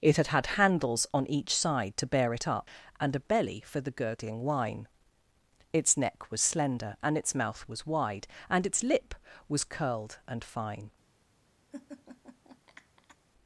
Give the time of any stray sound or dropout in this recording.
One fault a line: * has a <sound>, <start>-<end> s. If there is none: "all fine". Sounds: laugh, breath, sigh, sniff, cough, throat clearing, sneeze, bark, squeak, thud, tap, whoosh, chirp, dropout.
* has a laugh, 11.7-13.2 s